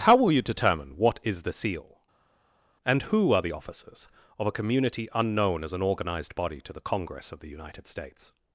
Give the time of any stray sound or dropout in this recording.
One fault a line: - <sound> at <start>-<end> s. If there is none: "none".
none